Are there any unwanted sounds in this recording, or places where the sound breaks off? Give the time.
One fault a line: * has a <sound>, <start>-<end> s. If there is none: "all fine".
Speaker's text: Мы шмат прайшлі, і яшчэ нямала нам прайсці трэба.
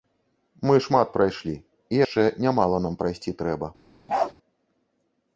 * has a bark, 4.1-4.3 s